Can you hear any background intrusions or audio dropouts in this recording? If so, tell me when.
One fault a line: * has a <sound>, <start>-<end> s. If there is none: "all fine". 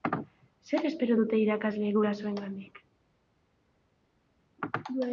all fine